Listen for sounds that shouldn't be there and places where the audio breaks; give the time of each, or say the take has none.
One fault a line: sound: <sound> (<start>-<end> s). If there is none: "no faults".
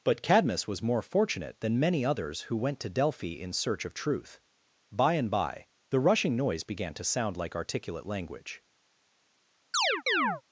sound: chirp (9.7-10.4 s)